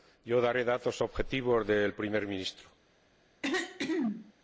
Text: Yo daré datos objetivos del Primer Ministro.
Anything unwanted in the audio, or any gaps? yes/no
yes